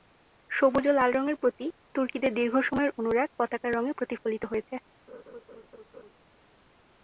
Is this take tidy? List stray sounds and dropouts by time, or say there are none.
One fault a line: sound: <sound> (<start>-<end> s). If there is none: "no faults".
sound: laugh (5.1-6.1 s)